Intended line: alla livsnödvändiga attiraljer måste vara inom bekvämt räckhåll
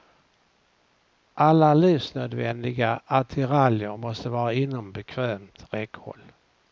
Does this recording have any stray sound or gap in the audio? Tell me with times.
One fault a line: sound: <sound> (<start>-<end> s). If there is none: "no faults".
no faults